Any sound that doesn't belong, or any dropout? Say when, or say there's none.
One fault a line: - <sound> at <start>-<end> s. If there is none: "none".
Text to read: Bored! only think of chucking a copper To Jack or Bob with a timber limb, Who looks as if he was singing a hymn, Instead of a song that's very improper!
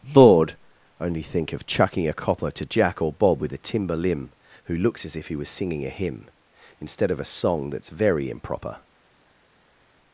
none